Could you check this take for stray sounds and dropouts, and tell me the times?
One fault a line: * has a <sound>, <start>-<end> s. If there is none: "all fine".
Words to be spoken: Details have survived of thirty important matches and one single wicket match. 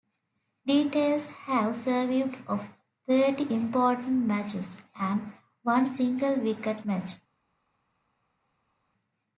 all fine